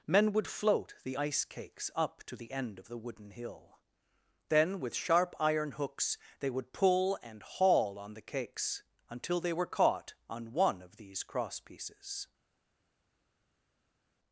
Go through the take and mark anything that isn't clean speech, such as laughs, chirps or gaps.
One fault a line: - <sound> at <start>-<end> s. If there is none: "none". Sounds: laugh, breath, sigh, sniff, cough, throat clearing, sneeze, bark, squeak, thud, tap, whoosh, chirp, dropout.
none